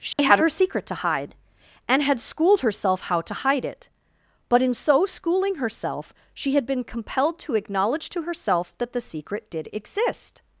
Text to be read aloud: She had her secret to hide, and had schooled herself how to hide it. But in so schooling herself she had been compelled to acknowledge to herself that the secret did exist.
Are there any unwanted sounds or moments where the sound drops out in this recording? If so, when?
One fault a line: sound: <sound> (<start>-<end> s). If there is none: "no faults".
sound: dropout (0.1-0.2 s)